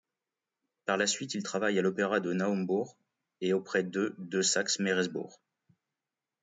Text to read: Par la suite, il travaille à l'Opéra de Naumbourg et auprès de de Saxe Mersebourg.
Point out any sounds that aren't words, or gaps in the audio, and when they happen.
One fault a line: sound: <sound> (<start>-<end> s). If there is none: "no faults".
no faults